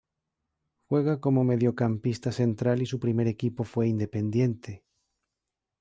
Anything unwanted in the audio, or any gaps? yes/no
no